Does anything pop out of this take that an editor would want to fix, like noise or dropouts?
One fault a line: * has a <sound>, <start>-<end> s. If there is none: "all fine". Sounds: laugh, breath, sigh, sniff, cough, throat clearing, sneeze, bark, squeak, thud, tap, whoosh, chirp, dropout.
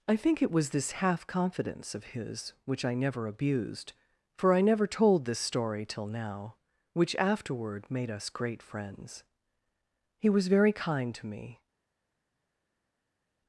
all fine